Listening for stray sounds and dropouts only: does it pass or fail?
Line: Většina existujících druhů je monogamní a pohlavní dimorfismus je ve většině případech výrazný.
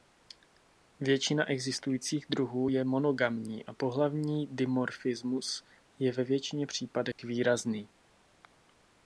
fail